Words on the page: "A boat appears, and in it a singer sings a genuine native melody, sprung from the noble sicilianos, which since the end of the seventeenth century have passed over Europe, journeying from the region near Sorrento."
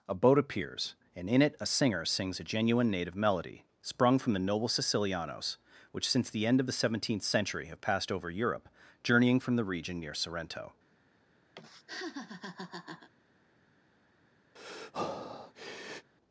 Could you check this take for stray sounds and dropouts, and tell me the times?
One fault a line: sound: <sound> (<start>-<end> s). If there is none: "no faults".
sound: laugh (11.5-13.1 s)
sound: breath (14.6-16.1 s)